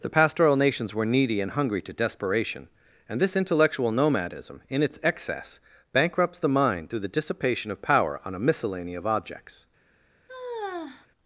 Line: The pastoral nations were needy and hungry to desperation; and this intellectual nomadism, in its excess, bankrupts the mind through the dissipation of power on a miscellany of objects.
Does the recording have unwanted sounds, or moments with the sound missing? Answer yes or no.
yes